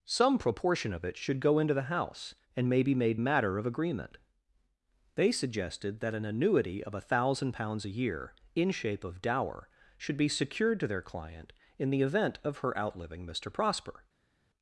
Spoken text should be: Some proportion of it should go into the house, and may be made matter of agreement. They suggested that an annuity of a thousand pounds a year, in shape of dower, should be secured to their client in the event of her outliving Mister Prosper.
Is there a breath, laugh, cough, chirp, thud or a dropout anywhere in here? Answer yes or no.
no